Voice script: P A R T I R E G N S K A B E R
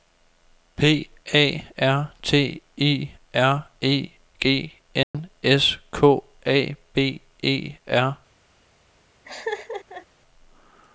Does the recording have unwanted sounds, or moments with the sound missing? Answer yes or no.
yes